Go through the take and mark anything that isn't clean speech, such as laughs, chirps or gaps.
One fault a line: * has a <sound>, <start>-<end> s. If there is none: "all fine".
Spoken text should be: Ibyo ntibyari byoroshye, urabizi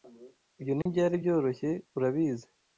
* has a dropout, 0.8-0.9 s